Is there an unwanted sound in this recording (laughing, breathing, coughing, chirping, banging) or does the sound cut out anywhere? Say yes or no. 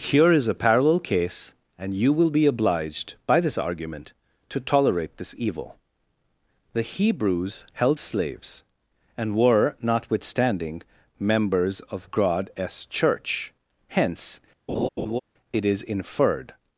yes